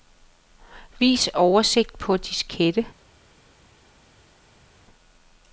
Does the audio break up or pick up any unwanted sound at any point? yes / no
no